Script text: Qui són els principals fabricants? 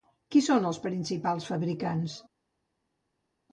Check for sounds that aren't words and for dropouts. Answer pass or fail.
pass